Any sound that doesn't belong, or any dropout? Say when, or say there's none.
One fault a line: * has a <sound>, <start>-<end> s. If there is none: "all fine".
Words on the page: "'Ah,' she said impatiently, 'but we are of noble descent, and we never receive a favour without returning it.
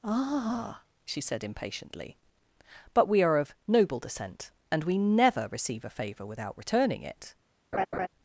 * has a laugh, 7.7-8.1 s